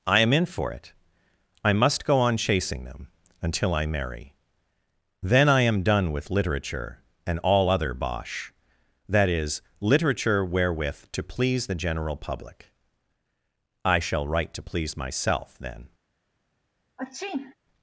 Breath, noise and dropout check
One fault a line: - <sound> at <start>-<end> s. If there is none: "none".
- sneeze at 17.0-17.5 s